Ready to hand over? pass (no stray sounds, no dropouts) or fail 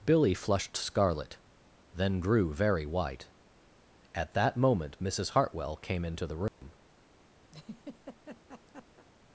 fail